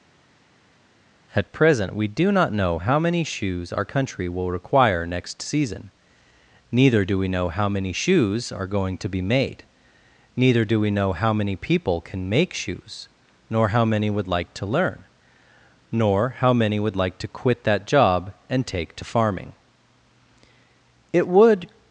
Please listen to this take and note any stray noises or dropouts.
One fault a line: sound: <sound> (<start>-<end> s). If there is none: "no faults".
no faults